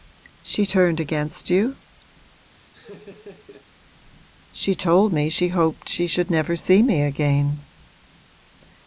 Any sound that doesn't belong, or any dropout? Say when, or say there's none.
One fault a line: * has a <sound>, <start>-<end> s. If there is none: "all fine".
* has a laugh, 2.5-3.7 s